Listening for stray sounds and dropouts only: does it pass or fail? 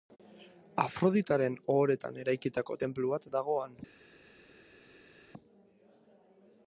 pass